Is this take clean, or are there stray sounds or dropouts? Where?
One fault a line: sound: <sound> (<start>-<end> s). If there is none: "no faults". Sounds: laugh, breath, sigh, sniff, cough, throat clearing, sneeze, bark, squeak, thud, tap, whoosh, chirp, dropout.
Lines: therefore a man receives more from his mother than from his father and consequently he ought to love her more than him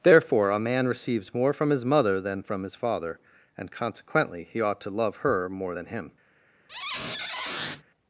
sound: squeak (6.7-7.8 s)